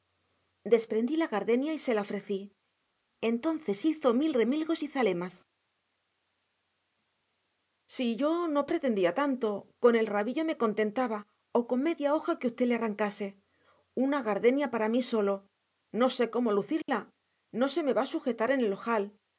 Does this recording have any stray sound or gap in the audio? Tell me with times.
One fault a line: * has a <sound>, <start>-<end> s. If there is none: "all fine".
* has a dropout, 16.8-16.9 s